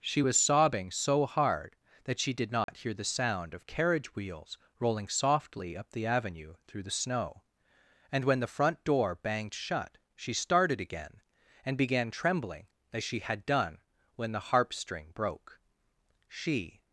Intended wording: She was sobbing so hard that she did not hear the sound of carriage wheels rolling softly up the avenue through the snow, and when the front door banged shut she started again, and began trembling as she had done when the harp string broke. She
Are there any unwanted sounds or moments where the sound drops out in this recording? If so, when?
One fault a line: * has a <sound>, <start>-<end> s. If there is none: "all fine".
* has a dropout, 2.6-2.7 s